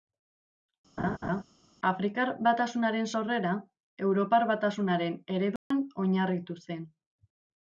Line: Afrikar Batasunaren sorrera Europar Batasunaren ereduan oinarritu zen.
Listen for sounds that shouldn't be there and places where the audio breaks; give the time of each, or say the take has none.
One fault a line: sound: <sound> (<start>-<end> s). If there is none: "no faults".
sound: laugh (1.0-1.4 s)
sound: dropout (5.6-5.7 s)